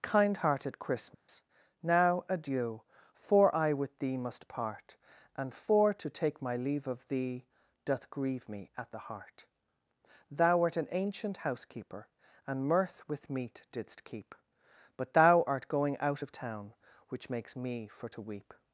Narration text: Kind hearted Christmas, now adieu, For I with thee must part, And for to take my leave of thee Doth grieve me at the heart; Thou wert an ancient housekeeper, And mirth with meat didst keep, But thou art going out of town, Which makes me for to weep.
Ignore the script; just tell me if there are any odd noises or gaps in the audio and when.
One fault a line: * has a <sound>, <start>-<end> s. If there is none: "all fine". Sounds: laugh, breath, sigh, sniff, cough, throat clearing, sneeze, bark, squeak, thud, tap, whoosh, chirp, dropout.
* has a dropout, 1.1-1.3 s